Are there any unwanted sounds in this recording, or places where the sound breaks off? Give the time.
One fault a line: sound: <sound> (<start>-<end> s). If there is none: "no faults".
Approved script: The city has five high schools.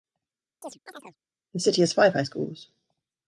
sound: chirp (0.6-1.2 s)